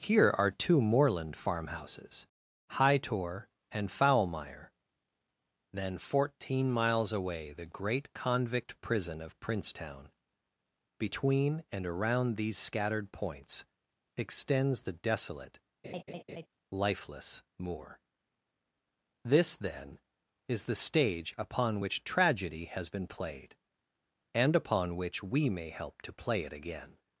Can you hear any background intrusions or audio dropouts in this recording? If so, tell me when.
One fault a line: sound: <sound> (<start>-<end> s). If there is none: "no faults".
sound: laugh (15.8-16.5 s)